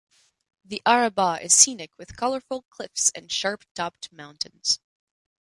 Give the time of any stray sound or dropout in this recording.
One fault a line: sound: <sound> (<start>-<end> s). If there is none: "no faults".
no faults